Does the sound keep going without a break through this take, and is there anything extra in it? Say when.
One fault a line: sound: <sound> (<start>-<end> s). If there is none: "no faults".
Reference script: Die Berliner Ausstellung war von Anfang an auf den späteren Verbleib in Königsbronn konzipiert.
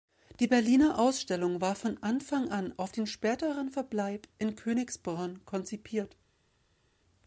no faults